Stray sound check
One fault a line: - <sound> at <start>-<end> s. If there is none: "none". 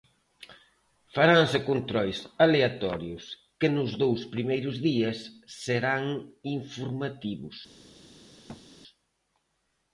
- thud at 8.5-8.7 s